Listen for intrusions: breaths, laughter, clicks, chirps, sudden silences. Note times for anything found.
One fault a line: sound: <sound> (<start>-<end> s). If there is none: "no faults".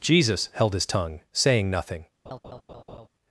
sound: laugh (2.3-3.1 s)